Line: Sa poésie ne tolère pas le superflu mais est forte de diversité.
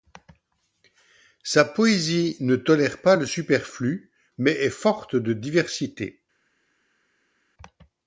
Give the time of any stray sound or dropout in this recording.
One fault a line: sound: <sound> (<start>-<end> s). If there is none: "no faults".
no faults